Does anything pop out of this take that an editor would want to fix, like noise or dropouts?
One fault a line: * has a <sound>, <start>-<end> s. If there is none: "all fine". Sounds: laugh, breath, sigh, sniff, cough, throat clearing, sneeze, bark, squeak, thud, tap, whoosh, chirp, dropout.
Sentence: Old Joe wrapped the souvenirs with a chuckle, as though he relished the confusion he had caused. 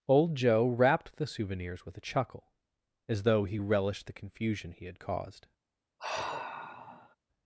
* has a sigh, 6.0-7.2 s